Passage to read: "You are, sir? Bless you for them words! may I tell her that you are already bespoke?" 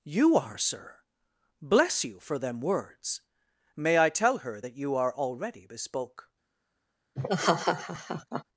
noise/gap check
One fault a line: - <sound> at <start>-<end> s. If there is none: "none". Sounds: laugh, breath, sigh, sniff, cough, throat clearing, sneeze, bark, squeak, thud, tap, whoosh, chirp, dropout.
- laugh at 7.1-8.4 s